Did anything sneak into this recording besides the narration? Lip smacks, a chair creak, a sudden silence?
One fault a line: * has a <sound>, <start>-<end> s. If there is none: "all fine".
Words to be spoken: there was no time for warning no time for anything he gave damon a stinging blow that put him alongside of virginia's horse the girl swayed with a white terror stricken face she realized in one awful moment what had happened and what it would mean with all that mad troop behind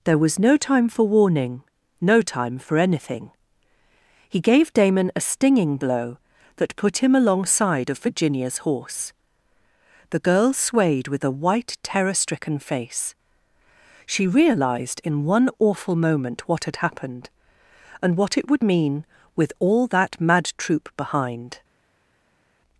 all fine